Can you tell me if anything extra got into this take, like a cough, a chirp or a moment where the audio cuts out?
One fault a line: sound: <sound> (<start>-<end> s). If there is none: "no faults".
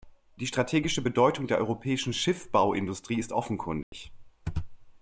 sound: dropout (3.8-3.9 s)